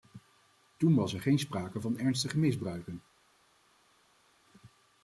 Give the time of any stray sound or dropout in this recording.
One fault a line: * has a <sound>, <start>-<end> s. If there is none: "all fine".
all fine